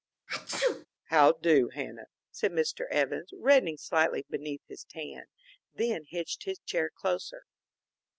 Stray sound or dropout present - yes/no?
yes